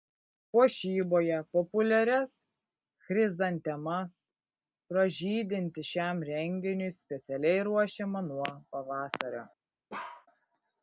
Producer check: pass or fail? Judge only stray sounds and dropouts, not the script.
fail